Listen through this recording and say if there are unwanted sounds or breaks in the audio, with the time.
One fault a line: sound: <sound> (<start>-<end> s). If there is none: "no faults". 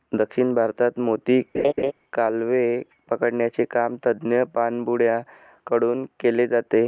sound: laugh (1.5-1.9 s)